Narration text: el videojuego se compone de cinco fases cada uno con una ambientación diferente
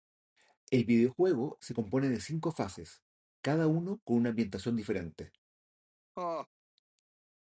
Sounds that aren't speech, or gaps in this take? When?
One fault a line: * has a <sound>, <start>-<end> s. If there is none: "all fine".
* has a laugh, 6.2-6.5 s